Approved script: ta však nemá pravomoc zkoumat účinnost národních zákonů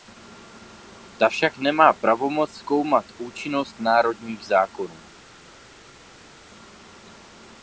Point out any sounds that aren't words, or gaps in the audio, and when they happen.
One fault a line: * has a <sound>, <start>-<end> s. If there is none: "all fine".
all fine